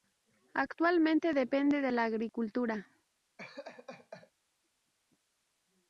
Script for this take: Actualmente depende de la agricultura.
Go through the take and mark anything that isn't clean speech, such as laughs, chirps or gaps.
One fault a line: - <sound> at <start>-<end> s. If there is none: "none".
- laugh at 3.4-4.3 s